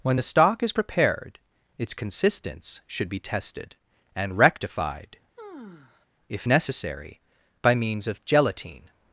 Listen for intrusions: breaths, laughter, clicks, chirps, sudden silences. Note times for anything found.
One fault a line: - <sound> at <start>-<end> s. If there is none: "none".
- sigh at 5.4-6.1 s